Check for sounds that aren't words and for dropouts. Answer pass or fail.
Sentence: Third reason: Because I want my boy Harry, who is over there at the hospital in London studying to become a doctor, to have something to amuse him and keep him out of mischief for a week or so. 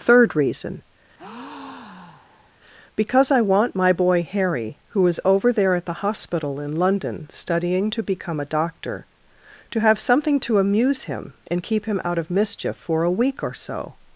fail